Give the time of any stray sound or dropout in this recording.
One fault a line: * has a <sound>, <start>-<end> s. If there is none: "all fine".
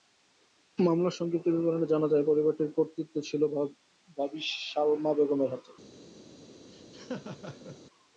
* has a laugh, 6.7-7.8 s